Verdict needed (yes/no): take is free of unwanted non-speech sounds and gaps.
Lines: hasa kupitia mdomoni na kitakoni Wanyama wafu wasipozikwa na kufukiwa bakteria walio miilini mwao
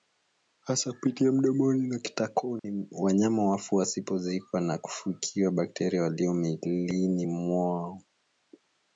no